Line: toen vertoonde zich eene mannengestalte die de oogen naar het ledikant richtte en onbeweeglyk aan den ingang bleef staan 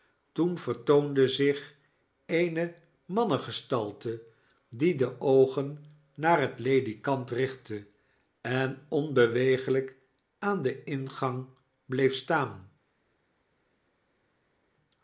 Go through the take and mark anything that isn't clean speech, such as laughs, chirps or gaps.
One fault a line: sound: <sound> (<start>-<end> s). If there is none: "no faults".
no faults